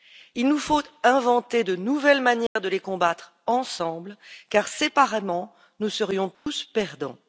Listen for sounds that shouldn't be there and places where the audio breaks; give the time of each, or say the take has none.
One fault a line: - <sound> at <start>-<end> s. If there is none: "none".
- dropout at 2.5-2.6 s
- dropout at 6.3-6.5 s